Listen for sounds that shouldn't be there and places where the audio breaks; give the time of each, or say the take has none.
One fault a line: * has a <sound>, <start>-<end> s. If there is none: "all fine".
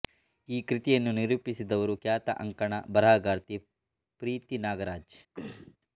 * has a throat clearing, 5.3-5.8 s